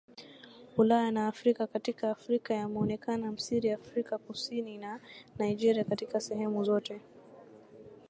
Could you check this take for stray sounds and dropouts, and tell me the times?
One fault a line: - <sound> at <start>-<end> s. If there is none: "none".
none